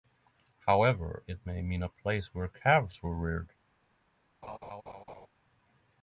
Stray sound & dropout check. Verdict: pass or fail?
fail